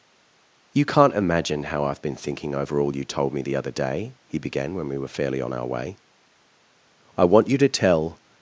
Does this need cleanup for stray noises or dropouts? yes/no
no